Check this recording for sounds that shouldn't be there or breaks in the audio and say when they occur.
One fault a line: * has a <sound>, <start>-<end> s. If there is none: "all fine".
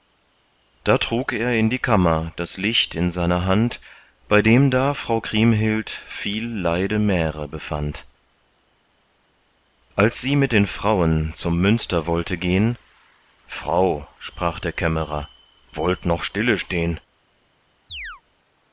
* has a chirp, 17.9-18.2 s